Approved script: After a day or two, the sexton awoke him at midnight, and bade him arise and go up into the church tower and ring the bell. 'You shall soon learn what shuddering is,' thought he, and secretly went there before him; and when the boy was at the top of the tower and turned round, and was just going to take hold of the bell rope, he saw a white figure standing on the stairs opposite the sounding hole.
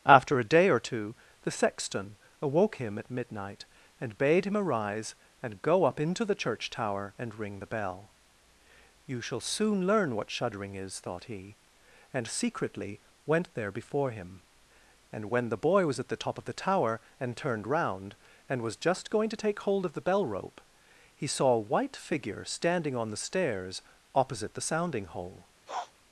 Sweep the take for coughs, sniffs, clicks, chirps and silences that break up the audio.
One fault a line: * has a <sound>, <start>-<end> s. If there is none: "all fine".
* has a sniff, 25.7-25.9 s